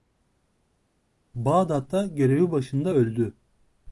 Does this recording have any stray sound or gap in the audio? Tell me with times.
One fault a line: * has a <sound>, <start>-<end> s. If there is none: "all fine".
all fine